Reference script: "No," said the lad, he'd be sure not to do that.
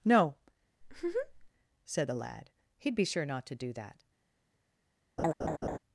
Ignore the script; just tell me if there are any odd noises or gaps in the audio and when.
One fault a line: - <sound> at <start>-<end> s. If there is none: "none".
- laugh at 0.8-1.5 s
- laugh at 5.2-5.8 s